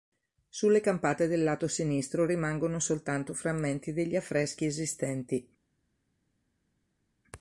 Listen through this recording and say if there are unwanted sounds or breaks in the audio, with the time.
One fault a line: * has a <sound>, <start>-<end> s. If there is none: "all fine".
all fine